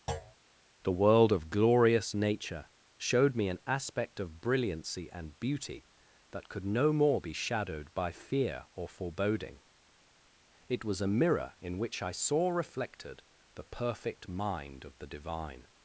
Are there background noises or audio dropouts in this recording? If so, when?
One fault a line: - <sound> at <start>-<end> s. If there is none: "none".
- thud at 0.1-0.3 s